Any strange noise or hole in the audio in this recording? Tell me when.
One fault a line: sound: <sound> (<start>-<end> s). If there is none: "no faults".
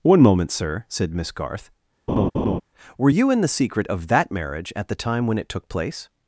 sound: laugh (2.1-2.6 s)